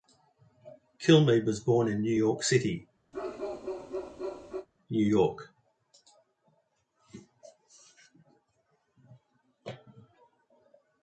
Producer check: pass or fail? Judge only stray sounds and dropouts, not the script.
fail